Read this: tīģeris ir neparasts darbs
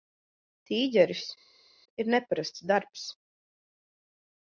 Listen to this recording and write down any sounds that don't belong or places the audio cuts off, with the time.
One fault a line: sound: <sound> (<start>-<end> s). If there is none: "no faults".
no faults